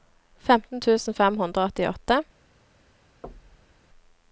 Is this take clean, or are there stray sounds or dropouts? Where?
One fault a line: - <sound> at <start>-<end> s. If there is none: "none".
- thud at 3.2-3.8 s